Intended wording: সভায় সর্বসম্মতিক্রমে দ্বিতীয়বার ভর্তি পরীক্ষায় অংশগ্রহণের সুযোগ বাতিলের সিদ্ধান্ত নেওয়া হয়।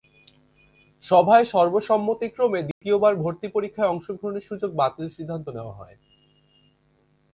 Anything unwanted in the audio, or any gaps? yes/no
yes